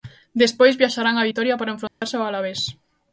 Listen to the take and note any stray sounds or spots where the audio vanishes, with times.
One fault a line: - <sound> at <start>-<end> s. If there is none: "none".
- dropout at 1.9-2.0 s